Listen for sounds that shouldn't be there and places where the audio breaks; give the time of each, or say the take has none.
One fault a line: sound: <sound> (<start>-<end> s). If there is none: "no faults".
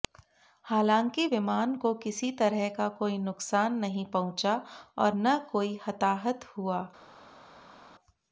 no faults